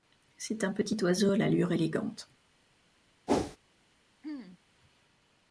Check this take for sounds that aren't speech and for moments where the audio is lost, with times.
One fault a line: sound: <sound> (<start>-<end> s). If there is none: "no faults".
sound: whoosh (3.3-3.6 s)
sound: throat clearing (4.2-4.6 s)